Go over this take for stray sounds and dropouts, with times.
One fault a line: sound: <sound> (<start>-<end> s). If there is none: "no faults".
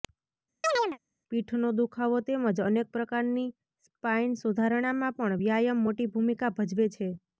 sound: chirp (0.6-1.0 s)